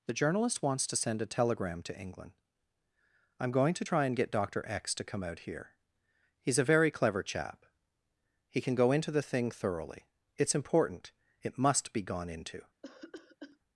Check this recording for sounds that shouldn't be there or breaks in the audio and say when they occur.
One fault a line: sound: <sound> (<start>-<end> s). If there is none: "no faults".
sound: cough (12.8-13.6 s)